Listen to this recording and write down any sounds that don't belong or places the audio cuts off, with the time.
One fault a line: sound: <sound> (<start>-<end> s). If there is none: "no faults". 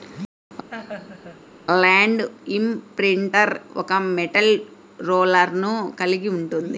sound: laugh (0.7-1.5 s)